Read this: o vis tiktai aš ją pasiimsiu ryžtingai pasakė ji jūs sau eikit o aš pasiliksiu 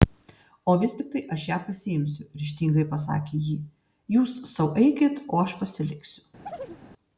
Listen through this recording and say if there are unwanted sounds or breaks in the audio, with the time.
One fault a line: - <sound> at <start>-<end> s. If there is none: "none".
- chirp at 6.5-6.8 s